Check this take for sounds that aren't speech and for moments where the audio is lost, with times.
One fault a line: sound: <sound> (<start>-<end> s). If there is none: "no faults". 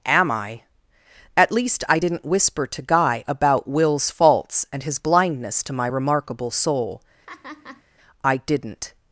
sound: laugh (7.3-7.8 s)